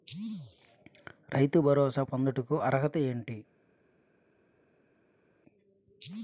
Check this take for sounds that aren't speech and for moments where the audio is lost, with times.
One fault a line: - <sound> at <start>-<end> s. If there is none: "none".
none